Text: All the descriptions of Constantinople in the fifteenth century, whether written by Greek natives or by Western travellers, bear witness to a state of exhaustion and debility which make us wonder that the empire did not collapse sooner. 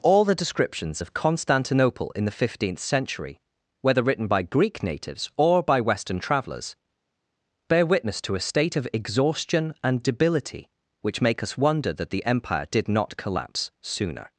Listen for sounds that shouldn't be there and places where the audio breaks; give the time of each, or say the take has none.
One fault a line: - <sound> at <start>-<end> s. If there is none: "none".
none